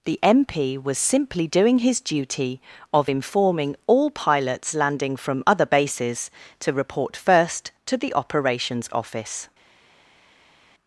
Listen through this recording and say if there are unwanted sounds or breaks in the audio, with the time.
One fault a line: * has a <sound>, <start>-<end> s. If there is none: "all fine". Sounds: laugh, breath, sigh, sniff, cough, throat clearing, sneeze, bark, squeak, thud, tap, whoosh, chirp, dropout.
all fine